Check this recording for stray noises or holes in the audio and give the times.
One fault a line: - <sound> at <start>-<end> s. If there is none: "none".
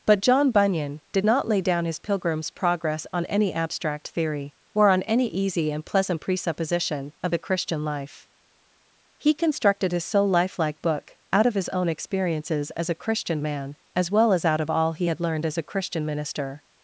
none